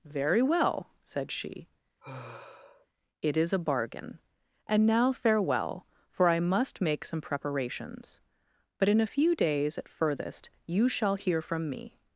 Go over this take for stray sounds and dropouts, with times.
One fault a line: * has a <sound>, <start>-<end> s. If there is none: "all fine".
* has a sigh, 2.0-2.9 s